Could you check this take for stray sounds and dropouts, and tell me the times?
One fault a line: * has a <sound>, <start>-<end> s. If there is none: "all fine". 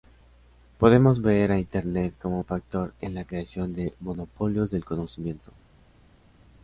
all fine